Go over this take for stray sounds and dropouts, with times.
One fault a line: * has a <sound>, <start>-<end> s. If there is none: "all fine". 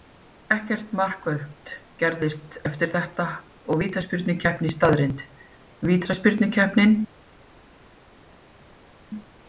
all fine